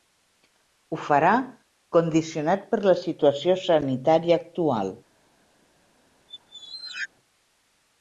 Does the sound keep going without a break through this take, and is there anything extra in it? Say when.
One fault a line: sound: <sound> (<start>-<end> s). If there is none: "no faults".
sound: squeak (6.3-7.1 s)